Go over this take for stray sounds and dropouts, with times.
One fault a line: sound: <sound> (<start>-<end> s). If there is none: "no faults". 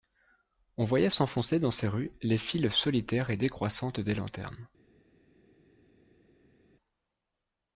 no faults